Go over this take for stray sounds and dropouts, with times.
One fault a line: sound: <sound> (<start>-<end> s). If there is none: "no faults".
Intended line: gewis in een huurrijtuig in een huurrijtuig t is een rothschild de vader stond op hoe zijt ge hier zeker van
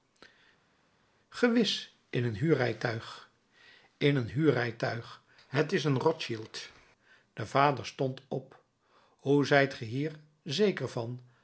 no faults